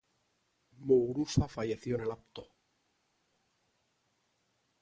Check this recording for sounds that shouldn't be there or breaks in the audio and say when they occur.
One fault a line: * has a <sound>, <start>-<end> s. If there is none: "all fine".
all fine